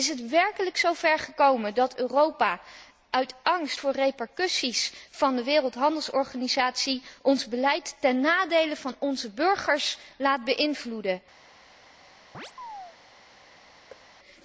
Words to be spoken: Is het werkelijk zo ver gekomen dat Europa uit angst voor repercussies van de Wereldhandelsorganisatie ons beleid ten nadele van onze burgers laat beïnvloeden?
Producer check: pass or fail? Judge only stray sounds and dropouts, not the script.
fail